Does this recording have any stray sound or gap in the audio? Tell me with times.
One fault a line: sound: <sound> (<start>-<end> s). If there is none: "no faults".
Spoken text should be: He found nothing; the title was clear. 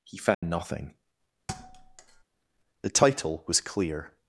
sound: dropout (0.3-0.4 s)
sound: thud (1.5-2.2 s)